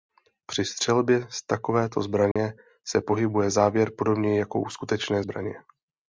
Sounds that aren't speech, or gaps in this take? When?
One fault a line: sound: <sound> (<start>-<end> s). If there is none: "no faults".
sound: dropout (2.3-2.4 s)